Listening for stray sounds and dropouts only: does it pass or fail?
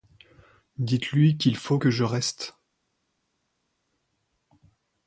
pass